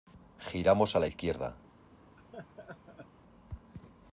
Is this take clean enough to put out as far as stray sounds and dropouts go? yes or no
no